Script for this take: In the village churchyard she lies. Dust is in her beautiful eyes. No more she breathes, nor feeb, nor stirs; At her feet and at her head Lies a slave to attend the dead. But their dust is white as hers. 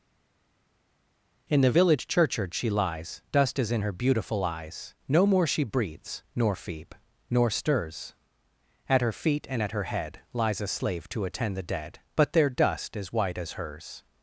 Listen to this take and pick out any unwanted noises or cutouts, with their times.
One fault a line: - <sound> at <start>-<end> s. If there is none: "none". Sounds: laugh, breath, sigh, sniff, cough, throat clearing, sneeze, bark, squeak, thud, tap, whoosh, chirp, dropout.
none